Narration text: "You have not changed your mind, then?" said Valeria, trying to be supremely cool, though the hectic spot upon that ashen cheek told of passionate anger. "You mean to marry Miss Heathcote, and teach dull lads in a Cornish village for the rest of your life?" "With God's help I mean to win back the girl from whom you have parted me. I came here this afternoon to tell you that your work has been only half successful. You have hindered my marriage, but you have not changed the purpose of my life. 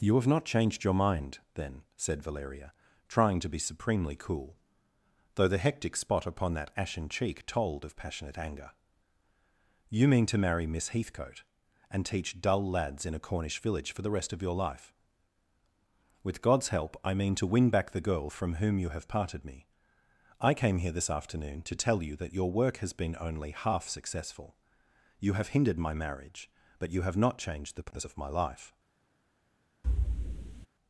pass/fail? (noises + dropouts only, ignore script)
fail